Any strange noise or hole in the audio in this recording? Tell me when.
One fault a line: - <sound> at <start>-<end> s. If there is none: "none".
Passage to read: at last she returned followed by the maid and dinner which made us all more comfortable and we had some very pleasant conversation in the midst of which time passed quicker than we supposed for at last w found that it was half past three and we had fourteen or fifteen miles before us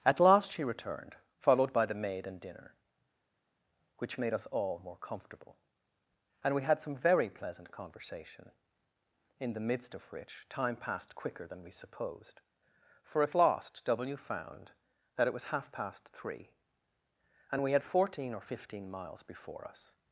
none